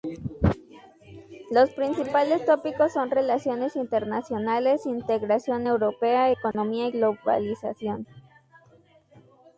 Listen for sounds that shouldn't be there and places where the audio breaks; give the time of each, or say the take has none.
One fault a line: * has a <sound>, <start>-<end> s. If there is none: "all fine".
* has a dropout, 6.5-6.5 s